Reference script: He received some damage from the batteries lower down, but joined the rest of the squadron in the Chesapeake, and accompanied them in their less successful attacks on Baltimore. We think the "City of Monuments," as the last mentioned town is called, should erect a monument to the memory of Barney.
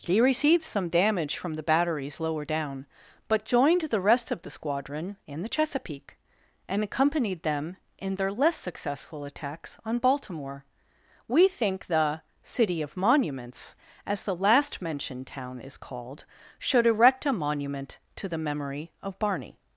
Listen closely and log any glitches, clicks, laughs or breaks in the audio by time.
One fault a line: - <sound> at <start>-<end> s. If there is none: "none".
none